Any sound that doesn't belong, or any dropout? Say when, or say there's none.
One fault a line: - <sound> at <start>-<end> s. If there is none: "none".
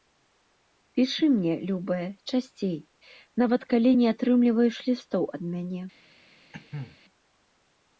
- cough at 6.5-7.0 s